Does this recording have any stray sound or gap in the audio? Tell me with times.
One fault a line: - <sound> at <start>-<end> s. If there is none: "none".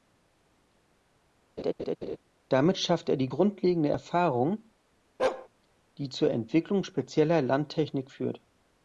- laugh at 1.6-2.2 s
- bark at 5.2-5.5 s